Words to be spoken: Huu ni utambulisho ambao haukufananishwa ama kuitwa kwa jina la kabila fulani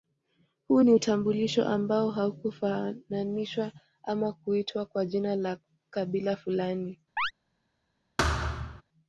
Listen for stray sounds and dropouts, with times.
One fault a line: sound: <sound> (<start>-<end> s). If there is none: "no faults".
sound: chirp (7.2-7.3 s)
sound: thud (8.2-8.8 s)